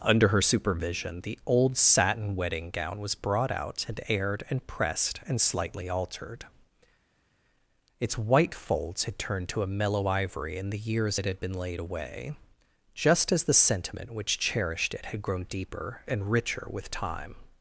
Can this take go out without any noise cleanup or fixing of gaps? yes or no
yes